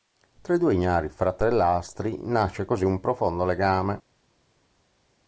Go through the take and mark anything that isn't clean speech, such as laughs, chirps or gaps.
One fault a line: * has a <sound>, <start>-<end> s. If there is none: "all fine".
all fine